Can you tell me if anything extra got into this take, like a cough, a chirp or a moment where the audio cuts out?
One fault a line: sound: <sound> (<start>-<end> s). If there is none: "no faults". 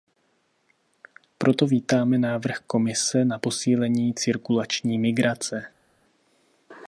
no faults